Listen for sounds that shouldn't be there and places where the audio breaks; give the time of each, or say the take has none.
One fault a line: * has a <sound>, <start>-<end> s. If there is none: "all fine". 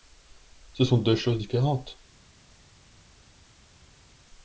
all fine